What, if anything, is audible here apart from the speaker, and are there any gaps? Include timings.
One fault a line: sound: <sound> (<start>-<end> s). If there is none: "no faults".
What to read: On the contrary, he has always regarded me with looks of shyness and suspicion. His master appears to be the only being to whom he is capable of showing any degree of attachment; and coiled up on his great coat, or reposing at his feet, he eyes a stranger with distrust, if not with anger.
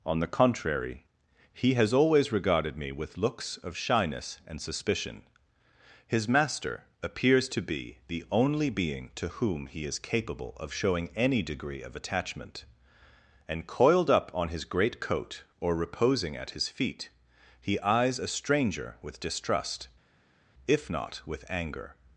no faults